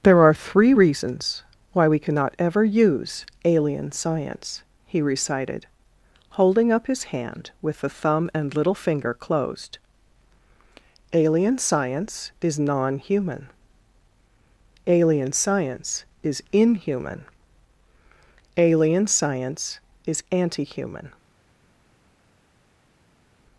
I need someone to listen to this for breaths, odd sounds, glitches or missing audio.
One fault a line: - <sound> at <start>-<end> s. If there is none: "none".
none